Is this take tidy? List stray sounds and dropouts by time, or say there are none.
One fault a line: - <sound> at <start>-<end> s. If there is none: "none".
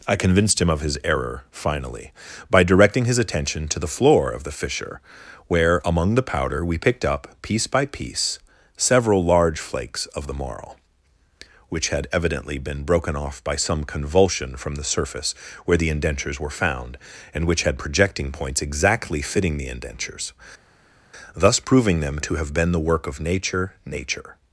none